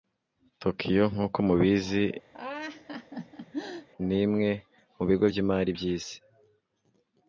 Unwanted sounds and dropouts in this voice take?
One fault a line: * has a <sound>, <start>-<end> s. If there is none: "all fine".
* has a laugh, 2.3-3.9 s